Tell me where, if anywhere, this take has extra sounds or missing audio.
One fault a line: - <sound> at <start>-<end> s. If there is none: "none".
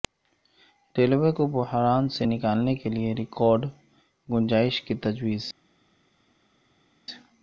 none